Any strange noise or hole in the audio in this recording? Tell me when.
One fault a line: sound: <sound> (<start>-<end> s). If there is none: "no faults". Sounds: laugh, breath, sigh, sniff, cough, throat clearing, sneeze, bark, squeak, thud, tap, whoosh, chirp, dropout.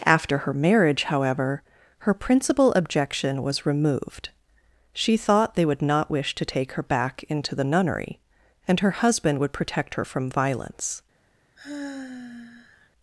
sound: sigh (11.6-12.9 s)